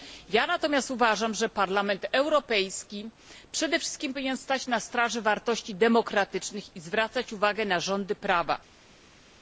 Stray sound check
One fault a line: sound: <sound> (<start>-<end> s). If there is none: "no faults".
no faults